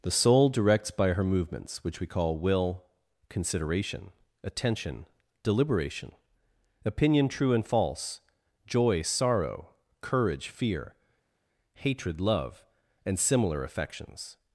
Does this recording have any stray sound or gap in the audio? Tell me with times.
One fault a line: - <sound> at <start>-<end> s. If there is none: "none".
none